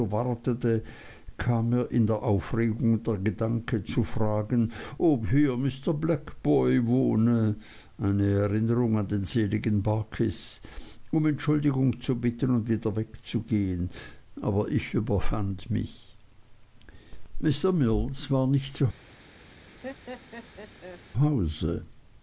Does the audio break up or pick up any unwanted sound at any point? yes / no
yes